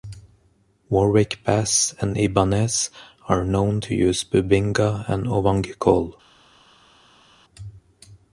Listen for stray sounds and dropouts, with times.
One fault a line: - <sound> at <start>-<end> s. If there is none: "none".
none